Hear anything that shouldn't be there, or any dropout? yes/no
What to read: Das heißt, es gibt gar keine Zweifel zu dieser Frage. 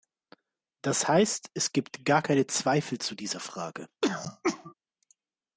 yes